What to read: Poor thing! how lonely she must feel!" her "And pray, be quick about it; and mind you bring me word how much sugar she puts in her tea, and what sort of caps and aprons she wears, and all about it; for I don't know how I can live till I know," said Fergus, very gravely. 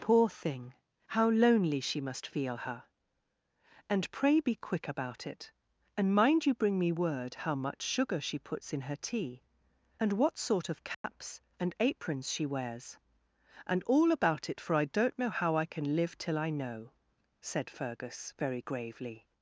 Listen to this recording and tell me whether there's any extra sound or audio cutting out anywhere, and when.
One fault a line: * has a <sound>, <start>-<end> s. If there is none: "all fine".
* has a dropout, 10.9-11.0 s